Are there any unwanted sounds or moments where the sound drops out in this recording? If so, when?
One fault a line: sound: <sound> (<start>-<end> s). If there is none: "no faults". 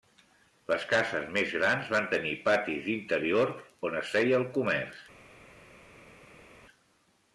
no faults